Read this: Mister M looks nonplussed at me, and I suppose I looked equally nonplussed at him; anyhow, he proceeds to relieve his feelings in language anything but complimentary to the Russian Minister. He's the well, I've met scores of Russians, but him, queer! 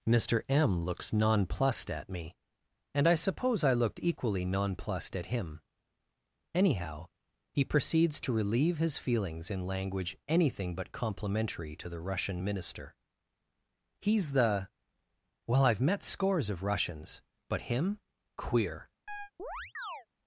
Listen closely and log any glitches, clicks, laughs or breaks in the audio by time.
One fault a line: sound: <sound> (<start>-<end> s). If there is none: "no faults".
sound: chirp (19.1-20.1 s)